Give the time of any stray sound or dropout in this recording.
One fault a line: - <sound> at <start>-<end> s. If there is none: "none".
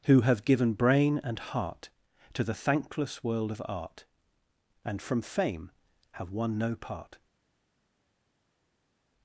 none